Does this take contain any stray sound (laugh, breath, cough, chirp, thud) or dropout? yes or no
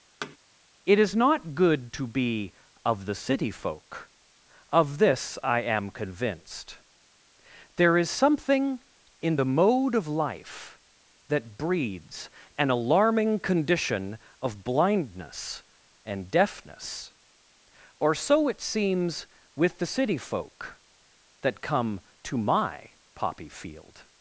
yes